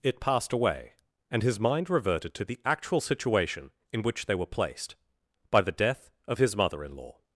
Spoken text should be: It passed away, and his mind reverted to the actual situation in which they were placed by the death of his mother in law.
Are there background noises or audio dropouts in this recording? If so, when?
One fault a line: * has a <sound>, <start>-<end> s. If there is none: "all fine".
all fine